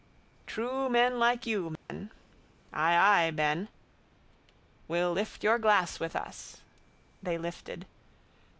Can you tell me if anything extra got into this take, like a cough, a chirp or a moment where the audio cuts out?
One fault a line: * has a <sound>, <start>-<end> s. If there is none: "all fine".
* has a dropout, 1.8-1.9 s